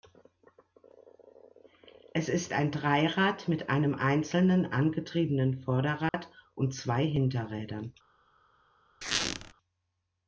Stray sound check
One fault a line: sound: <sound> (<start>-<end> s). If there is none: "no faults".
sound: dropout (6.1-6.1 s)
sound: squeak (9.0-9.5 s)